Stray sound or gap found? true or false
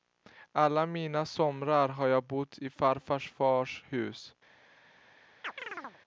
true